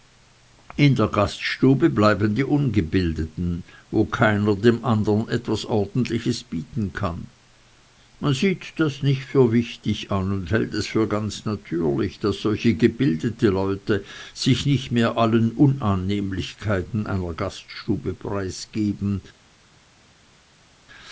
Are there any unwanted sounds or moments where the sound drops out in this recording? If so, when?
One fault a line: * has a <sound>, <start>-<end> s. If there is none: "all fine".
all fine